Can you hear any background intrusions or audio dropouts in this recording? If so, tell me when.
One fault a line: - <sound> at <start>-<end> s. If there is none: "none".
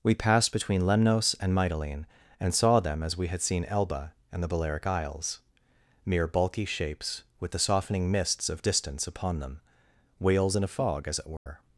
- dropout at 11.4-11.5 s